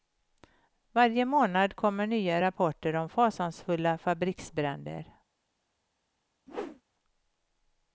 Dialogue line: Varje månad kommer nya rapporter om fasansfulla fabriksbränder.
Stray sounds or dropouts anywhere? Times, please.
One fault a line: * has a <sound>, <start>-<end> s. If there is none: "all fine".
* has a whoosh, 6.5-6.8 s